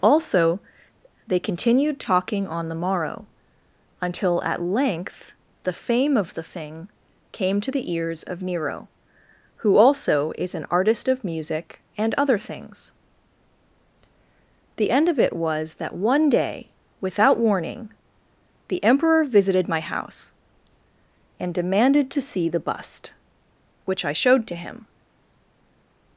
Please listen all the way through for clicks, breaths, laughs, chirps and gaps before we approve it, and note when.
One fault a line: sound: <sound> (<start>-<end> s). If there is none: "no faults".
no faults